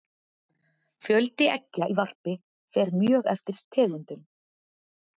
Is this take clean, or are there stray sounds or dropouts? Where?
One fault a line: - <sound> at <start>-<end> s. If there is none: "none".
none